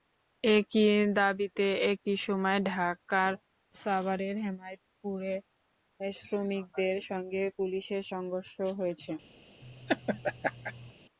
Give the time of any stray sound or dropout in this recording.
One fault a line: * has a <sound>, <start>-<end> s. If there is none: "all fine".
* has a laugh, 9.6-10.9 s